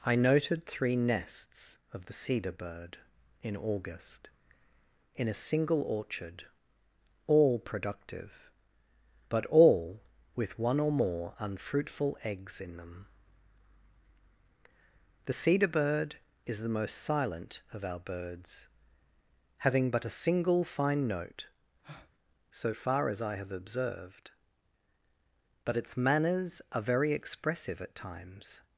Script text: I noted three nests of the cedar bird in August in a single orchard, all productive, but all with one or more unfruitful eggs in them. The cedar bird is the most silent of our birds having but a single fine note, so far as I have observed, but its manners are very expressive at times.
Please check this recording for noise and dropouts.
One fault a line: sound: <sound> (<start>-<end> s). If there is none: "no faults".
sound: breath (21.8-22.1 s)